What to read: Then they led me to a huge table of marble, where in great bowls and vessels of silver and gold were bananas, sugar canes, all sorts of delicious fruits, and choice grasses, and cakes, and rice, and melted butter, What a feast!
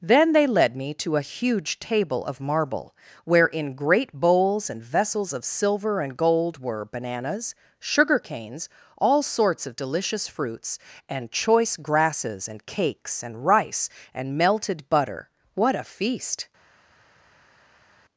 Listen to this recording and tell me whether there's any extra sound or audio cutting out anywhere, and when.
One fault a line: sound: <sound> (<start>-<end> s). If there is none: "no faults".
no faults